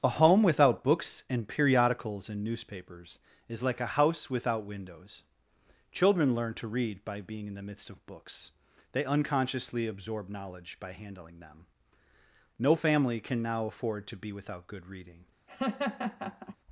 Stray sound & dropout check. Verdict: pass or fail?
fail